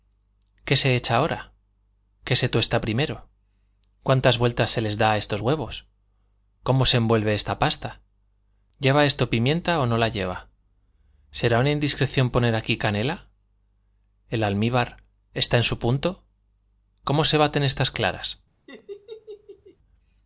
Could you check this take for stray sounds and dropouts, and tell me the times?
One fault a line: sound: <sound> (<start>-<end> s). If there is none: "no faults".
sound: laugh (18.7-19.8 s)